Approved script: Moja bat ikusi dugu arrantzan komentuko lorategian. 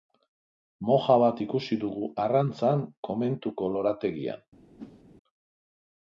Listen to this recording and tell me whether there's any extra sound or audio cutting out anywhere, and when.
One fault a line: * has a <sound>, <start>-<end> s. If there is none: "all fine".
* has a whoosh, 4.8-5.0 s